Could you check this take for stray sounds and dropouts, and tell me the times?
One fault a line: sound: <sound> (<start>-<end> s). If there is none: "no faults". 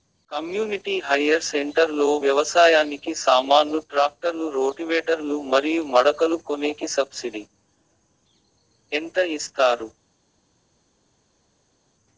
no faults